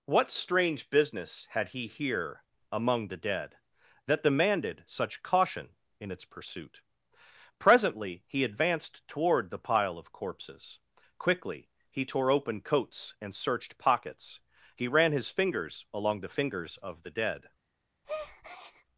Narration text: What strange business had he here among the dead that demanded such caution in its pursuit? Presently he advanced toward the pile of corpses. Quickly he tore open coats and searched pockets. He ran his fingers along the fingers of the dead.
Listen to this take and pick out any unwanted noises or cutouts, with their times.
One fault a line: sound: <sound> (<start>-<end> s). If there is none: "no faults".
sound: breath (18.0-18.8 s)